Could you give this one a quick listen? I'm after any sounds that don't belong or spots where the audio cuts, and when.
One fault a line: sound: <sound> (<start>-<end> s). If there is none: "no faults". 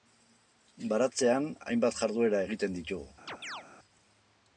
sound: chirp (3.3-3.6 s)